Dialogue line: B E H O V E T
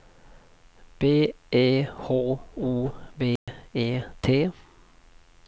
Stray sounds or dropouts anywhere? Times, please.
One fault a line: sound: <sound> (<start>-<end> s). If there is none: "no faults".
sound: dropout (3.4-3.5 s)